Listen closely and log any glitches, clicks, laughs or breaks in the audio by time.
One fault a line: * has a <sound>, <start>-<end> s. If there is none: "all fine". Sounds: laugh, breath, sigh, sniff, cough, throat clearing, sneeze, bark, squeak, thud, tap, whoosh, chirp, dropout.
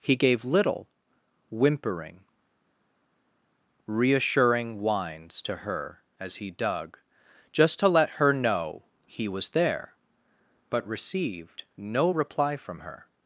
all fine